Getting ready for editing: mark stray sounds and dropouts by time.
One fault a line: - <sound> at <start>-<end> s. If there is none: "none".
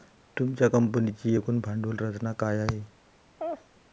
- laugh at 3.4-3.7 s